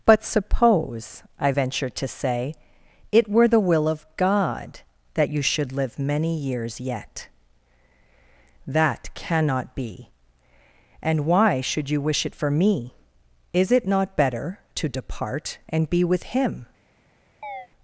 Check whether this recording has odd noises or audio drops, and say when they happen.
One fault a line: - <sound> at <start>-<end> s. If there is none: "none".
- chirp at 17.4-17.7 s